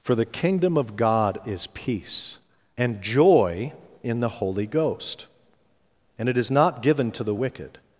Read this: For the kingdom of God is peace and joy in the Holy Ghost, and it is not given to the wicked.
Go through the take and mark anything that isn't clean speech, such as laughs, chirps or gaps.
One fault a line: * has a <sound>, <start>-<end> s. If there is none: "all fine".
all fine